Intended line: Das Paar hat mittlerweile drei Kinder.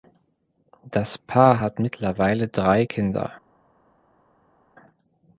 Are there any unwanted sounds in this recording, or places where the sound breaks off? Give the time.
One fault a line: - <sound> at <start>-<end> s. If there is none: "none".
none